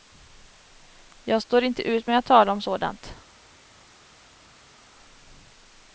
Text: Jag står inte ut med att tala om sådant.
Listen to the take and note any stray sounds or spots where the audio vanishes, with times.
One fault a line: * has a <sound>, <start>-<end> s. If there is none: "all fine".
all fine